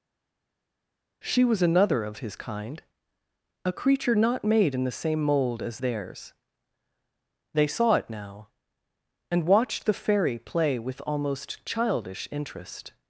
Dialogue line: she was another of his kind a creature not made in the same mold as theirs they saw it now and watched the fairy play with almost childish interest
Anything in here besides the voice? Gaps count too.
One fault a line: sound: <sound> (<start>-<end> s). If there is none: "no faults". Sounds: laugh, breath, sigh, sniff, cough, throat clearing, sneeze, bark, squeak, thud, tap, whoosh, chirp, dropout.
no faults